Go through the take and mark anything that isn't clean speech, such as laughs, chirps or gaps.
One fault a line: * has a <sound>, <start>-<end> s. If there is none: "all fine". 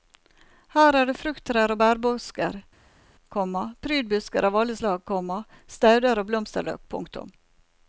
all fine